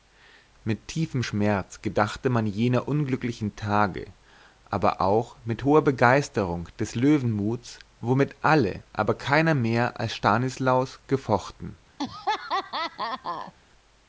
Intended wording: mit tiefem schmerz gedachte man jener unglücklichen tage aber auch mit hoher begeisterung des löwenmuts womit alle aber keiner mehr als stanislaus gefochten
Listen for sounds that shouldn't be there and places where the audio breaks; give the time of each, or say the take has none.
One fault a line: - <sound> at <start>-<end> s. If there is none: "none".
- laugh at 12.0-13.5 s